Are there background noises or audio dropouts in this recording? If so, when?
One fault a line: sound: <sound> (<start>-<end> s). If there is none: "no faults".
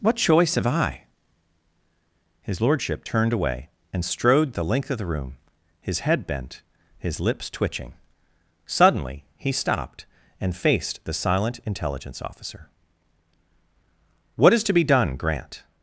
no faults